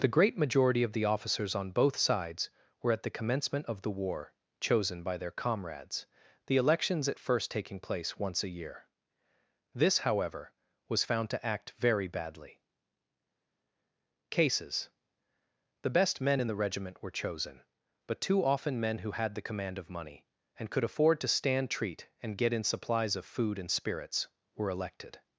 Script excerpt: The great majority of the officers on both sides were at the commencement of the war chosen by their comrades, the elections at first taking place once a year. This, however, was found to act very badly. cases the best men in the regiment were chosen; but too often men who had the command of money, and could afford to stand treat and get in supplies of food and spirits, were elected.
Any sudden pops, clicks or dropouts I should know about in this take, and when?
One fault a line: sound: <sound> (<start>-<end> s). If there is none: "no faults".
no faults